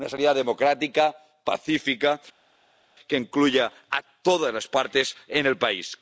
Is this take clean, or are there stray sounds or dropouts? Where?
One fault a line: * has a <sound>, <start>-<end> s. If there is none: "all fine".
all fine